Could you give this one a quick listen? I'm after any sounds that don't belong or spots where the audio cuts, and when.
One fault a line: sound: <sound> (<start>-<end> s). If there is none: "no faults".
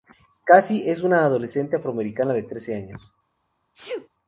sound: sneeze (3.7-4.1 s)